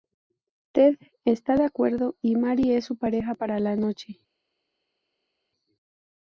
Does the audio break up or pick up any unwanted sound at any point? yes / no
no